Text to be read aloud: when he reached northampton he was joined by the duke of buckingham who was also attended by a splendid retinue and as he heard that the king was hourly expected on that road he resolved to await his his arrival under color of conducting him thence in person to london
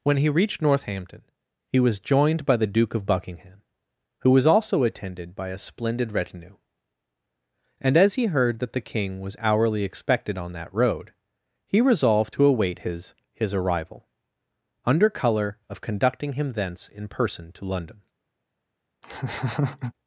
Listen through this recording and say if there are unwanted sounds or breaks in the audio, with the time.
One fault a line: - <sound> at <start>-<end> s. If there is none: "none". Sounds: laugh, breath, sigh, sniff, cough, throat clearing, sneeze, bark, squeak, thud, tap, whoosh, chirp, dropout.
- laugh at 19.0-19.9 s